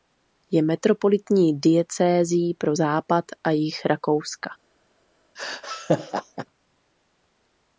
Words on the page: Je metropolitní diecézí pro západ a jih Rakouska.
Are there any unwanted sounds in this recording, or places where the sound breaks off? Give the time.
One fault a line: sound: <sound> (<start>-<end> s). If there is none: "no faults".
sound: laugh (5.4-6.5 s)